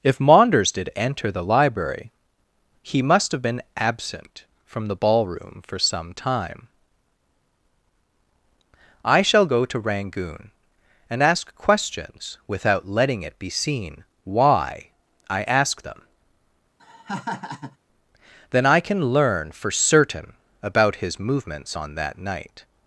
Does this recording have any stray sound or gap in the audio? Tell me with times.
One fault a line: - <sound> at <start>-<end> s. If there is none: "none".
- laugh at 16.8-17.8 s